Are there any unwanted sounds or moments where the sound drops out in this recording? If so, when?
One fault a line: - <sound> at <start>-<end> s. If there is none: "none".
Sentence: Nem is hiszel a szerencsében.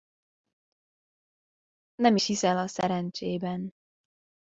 none